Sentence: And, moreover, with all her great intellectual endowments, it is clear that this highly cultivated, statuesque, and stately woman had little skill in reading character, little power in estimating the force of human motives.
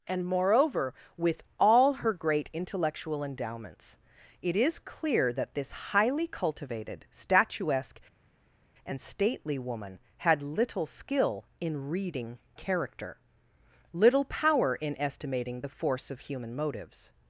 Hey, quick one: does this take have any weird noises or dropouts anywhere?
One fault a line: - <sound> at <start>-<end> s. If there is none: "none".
none